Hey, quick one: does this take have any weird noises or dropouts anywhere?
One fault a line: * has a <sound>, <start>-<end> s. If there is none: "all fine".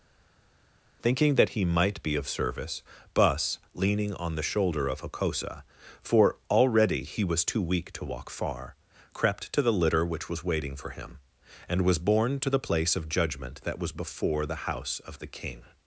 all fine